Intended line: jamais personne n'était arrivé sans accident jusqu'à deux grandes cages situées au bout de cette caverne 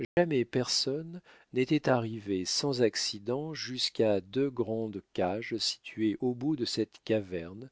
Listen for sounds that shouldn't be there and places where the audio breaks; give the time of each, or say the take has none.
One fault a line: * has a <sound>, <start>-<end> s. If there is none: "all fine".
* has a dropout, 0.0-0.2 s